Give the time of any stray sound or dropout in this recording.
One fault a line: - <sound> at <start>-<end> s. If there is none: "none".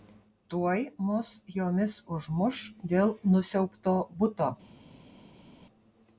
none